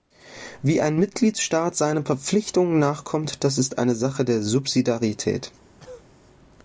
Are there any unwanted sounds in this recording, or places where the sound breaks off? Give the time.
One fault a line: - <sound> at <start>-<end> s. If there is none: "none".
- cough at 5.8-6.1 s